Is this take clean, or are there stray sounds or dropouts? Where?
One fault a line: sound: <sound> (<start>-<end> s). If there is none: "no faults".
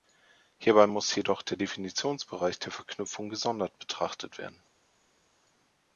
no faults